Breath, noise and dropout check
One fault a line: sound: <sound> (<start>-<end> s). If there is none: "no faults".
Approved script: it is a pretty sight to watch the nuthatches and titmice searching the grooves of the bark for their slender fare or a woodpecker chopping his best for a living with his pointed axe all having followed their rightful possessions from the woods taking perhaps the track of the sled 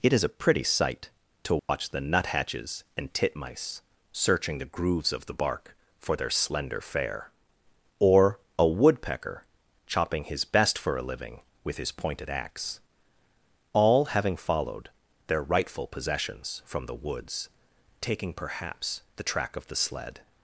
sound: dropout (1.6-1.7 s)